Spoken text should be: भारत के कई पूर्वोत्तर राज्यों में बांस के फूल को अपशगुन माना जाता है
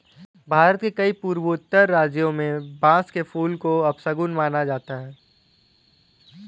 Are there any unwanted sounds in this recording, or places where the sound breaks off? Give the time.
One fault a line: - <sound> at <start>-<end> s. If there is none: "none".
none